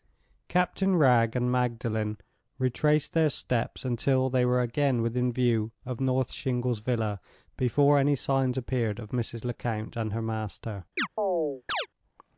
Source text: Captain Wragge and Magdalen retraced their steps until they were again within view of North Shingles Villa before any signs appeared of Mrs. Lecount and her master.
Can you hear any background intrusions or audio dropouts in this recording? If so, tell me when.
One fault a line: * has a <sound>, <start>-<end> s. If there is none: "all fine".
* has a chirp, 11.0-11.9 s